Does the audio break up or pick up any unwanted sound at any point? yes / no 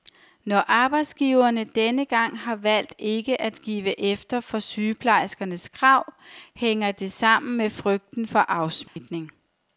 yes